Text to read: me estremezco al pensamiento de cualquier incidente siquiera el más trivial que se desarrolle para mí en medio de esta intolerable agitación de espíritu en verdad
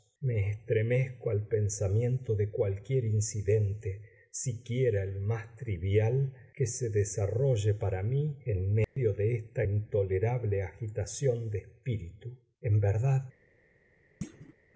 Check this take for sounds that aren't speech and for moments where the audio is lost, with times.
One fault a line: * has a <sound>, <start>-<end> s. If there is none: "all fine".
* has a dropout, 8.8-9.0 s
* has a thud, 14.2-14.5 s